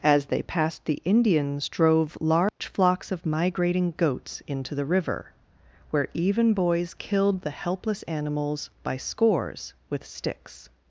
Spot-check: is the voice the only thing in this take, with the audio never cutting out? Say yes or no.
no